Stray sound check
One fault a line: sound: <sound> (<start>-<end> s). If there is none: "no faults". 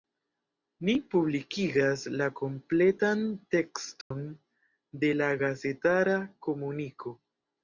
sound: dropout (4.0-4.1 s)